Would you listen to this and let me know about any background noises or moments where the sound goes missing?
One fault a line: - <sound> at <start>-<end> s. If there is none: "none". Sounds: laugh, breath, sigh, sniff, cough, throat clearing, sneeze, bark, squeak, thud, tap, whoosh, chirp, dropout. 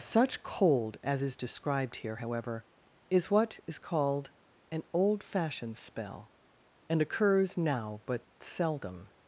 none